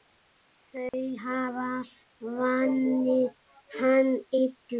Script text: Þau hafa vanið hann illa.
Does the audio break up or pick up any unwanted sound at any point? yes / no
yes